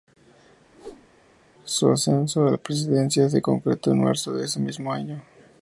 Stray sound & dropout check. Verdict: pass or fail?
fail